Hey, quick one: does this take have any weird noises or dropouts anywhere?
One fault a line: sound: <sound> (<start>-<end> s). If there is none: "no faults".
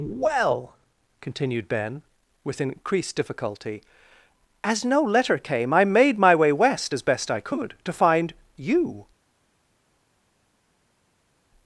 no faults